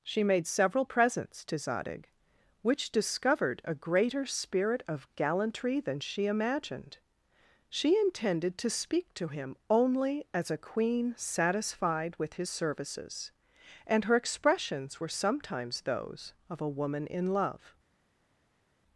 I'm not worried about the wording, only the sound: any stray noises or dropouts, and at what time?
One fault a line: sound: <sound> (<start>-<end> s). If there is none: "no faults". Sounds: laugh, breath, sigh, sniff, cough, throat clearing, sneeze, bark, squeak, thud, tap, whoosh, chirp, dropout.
no faults